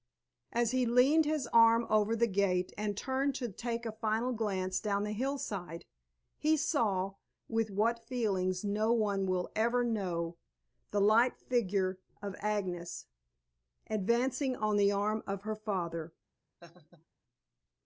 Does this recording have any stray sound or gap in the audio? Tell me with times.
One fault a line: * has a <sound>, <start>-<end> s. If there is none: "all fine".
* has a laugh, 16.6-17.1 s